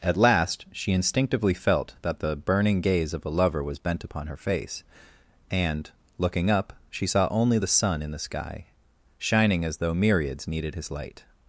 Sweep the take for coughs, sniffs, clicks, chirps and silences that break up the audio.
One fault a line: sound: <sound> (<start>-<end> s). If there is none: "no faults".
no faults